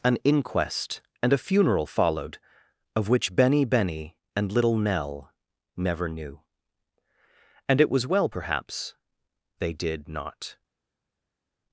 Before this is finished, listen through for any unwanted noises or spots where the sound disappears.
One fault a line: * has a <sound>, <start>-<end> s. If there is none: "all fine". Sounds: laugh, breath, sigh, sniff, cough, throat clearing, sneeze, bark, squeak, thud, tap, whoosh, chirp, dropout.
all fine